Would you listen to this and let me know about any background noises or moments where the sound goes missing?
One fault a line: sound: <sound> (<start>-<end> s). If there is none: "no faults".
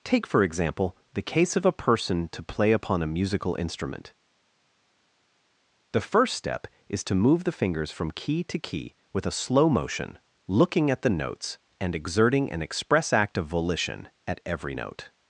no faults